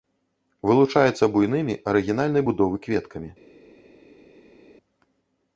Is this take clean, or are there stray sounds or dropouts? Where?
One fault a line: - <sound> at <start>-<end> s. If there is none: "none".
none